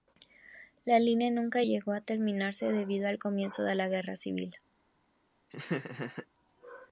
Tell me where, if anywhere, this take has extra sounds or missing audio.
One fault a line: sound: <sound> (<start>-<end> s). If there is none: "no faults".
sound: laugh (5.5-6.3 s)